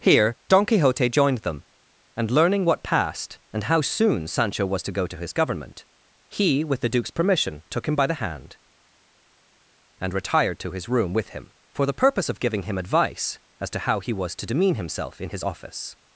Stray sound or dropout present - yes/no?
no